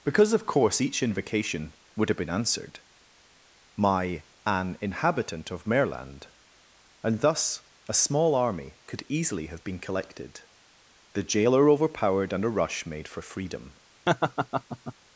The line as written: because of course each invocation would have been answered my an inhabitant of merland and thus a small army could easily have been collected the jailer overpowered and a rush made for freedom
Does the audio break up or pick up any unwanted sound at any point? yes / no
yes